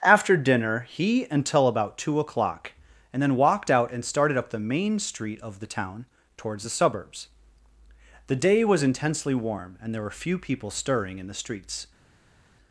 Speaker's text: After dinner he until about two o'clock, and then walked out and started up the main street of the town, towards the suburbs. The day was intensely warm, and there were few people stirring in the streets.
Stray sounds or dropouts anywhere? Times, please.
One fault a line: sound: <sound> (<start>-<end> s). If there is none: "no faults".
no faults